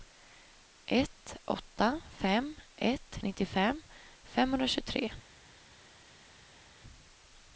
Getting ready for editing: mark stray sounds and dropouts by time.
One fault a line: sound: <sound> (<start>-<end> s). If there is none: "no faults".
no faults